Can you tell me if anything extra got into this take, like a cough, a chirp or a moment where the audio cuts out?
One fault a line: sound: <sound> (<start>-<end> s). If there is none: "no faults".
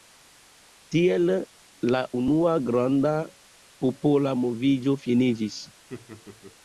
sound: laugh (5.9-6.6 s)